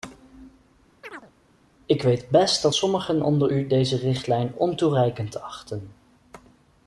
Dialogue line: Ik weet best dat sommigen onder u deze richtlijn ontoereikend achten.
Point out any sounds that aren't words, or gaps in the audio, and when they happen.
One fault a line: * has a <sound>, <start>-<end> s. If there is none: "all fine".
* has a chirp, 1.0-1.3 s